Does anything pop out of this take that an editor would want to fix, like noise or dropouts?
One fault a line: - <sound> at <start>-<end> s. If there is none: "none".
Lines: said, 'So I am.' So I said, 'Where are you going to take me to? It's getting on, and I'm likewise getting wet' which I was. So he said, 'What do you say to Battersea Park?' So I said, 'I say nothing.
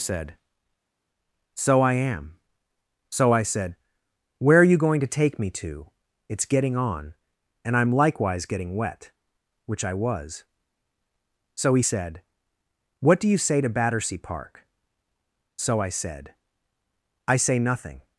none